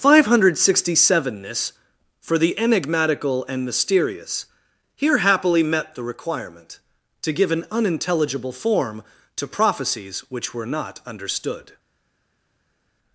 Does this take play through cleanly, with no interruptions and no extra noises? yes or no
yes